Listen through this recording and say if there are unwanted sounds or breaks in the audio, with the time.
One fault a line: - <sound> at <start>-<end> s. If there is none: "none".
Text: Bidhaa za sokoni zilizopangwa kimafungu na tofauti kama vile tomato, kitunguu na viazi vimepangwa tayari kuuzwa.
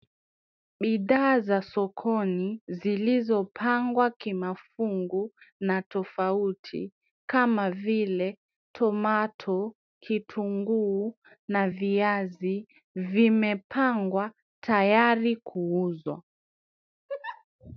- laugh at 17.1-17.4 s